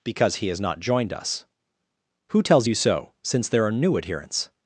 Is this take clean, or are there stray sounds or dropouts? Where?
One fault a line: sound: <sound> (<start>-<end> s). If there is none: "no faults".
no faults